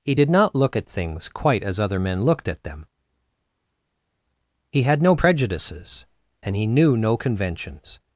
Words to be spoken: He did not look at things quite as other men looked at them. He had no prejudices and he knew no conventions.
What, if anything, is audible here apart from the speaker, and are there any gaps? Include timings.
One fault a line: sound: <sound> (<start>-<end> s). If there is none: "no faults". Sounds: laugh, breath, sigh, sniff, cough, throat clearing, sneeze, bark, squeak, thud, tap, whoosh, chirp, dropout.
no faults